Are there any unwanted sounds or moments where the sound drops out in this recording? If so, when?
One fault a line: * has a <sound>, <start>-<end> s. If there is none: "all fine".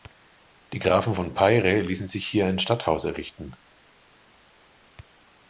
all fine